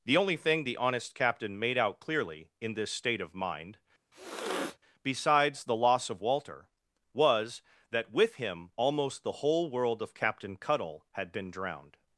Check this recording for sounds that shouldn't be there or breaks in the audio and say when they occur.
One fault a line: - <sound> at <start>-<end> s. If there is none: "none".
- sniff at 4.1-4.8 s